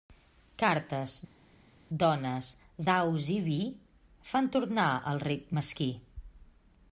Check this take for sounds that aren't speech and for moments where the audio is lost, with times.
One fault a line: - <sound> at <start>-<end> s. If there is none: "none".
none